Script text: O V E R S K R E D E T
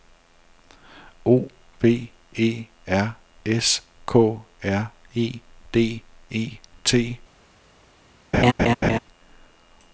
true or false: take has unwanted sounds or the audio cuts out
true